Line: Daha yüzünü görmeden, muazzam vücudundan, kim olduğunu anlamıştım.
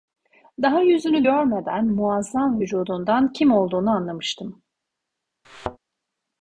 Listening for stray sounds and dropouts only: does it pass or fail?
fail